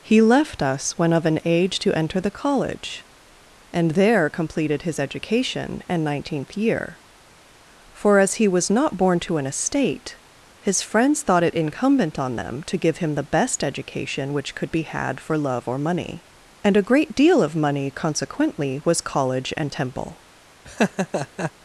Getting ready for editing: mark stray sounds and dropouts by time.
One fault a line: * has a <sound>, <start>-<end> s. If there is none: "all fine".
* has a laugh, 20.6-21.5 s